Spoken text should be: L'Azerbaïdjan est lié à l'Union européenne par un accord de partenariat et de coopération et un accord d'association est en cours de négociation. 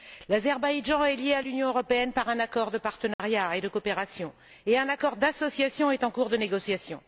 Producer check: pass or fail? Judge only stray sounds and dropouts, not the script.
fail